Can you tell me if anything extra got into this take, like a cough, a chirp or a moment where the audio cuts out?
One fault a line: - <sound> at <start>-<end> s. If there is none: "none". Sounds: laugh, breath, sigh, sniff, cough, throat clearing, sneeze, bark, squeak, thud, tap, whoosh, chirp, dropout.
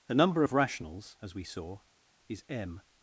none